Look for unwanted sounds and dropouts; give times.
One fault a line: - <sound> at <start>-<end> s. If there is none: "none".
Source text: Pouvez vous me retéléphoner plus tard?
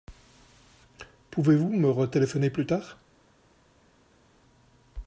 none